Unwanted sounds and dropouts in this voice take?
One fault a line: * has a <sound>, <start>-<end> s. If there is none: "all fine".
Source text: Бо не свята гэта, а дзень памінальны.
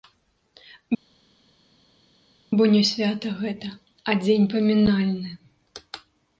all fine